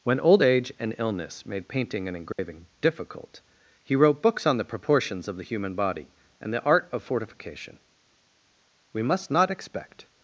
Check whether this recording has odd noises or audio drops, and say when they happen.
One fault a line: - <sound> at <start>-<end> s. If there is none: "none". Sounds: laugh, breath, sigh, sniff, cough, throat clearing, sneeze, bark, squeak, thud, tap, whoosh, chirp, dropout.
- dropout at 2.3-2.4 s